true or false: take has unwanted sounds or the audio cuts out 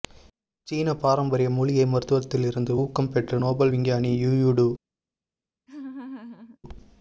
true